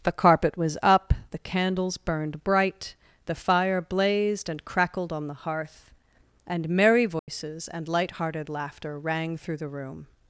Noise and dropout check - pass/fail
fail